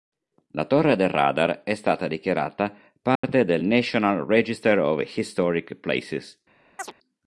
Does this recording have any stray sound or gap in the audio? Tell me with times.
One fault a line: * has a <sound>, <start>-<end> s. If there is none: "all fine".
* has a dropout, 3.2-3.2 s
* has a chirp, 6.8-6.9 s